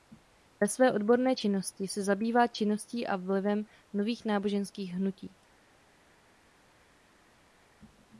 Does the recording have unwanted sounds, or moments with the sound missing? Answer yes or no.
no